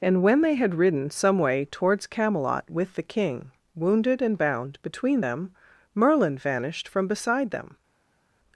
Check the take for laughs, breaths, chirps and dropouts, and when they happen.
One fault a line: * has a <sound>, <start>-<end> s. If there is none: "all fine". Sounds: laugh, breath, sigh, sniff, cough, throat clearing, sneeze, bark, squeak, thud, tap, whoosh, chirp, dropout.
all fine